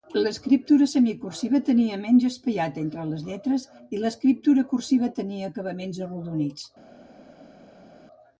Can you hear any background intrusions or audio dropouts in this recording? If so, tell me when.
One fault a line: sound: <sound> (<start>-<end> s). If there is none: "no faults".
no faults